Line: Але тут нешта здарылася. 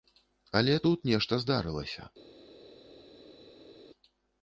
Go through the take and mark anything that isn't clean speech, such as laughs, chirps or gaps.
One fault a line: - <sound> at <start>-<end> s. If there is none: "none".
none